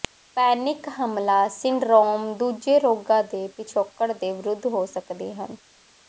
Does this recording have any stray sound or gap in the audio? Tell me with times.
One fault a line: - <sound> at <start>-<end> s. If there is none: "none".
none